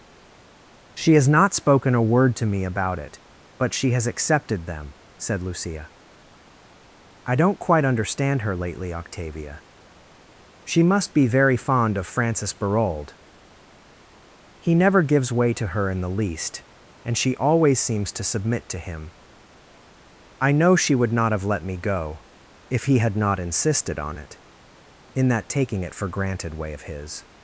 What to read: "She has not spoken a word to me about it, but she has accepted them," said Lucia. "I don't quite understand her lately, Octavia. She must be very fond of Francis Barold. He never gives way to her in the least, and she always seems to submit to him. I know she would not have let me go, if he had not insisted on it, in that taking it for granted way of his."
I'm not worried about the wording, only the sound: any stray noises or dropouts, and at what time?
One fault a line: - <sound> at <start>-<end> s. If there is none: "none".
none